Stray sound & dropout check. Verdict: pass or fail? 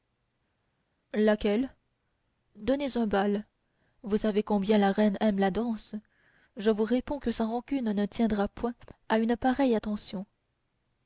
pass